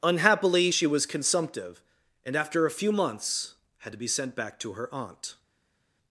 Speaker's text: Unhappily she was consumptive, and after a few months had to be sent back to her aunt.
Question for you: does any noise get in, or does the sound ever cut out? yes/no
no